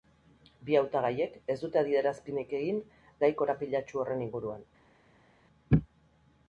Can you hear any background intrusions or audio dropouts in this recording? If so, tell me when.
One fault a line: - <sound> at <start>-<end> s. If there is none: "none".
none